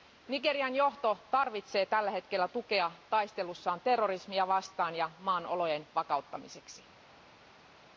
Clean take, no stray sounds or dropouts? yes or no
yes